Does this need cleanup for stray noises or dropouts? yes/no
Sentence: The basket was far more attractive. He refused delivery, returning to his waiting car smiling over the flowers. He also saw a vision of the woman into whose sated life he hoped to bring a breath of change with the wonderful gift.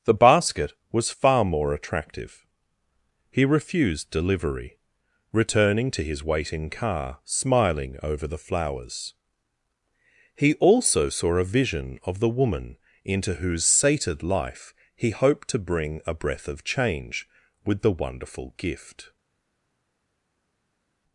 no